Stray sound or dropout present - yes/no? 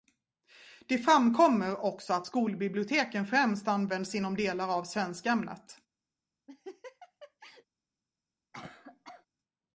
yes